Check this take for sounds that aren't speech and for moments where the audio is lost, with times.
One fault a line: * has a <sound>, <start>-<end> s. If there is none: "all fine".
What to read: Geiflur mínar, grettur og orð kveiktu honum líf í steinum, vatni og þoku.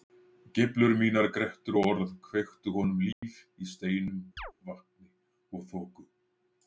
* has a dropout, 3.1-3.2 s
* has a chirp, 4.4-4.5 s